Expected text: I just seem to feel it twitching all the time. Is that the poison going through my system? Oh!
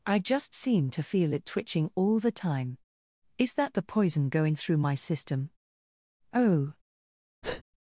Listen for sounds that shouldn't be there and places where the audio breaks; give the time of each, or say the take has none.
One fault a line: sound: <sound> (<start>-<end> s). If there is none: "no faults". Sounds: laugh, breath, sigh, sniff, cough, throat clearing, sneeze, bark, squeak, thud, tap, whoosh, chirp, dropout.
sound: breath (7.4-7.6 s)